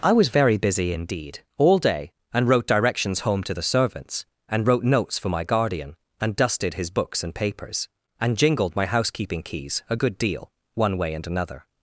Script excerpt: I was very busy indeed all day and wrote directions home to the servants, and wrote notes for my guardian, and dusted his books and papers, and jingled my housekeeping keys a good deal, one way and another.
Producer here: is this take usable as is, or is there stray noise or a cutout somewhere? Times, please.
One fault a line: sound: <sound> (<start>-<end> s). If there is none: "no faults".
no faults